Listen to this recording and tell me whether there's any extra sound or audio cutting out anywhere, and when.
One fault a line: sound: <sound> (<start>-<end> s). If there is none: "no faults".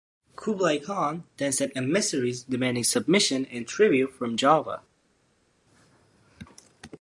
no faults